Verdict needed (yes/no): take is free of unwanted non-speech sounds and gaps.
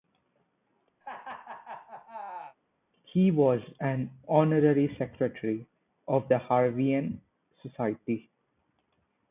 no